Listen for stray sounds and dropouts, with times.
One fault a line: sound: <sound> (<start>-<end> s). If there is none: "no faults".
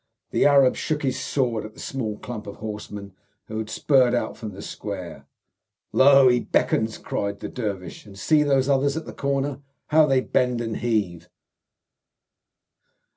no faults